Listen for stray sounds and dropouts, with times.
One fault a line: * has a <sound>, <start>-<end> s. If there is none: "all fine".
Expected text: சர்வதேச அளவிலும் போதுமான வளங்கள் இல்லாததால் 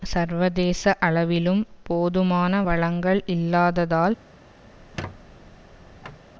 * has a squeak, 4.7-6.3 s